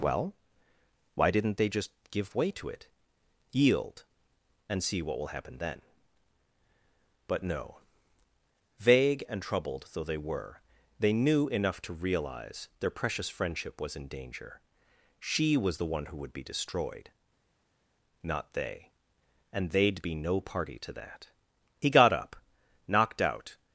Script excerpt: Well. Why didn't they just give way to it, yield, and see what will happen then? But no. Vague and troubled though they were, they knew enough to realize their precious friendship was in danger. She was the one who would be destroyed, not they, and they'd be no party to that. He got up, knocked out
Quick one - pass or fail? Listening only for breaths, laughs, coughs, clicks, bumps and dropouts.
pass